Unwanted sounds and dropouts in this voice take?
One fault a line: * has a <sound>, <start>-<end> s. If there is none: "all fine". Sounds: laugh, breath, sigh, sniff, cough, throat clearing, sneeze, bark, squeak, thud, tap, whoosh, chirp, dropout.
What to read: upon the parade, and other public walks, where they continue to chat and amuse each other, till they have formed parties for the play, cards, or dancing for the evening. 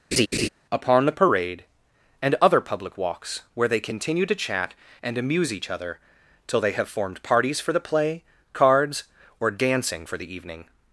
* has a laugh, 0.1-0.5 s